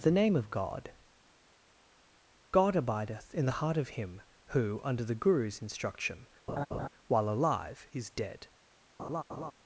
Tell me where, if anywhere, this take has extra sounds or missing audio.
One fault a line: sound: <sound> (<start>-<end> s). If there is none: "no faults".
sound: laugh (6.5-6.9 s)
sound: laugh (9.0-9.5 s)